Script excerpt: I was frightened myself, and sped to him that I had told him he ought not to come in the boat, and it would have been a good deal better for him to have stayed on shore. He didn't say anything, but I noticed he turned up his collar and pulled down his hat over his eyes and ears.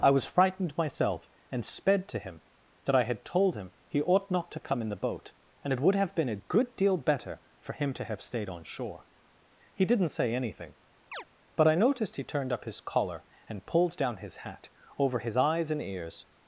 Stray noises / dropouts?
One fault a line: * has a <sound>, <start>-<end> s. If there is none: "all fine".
* has a chirp, 11.1-11.2 s